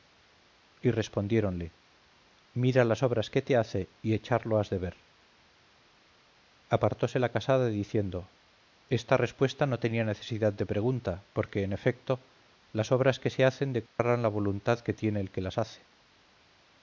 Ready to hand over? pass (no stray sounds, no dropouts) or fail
fail